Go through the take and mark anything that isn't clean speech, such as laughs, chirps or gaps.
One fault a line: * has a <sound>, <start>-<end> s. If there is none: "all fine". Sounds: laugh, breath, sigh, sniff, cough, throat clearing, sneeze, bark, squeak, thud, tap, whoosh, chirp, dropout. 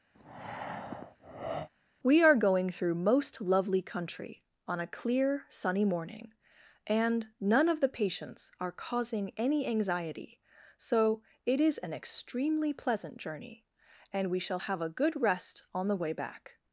* has a breath, 0.1-1.7 s